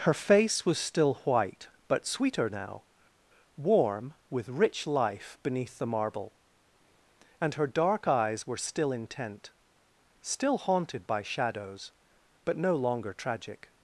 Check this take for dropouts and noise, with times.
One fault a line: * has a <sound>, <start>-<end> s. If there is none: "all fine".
all fine